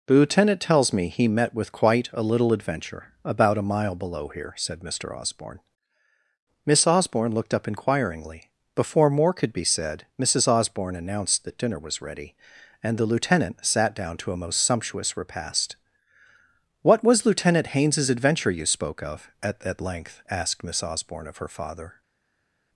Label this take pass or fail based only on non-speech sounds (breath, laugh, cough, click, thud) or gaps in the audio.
pass